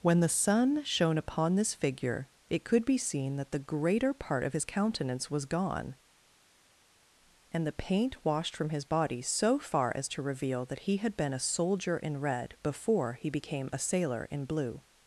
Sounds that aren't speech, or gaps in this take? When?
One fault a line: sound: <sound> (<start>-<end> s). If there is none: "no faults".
no faults